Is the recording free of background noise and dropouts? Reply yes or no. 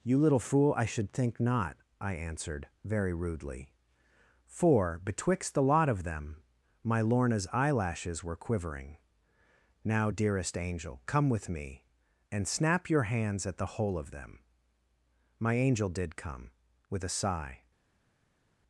yes